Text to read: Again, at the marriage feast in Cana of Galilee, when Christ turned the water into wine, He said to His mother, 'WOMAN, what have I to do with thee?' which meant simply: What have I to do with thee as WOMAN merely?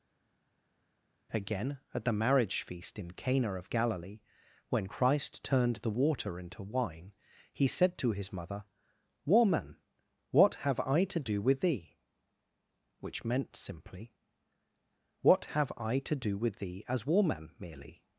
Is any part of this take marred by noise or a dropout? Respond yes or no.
no